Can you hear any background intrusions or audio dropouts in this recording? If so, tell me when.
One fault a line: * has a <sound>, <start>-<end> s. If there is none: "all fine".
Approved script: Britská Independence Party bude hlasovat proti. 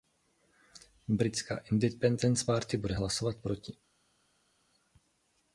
all fine